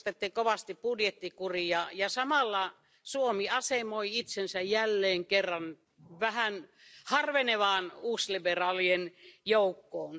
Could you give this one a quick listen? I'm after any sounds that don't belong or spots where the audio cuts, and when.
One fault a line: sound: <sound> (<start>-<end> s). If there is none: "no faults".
no faults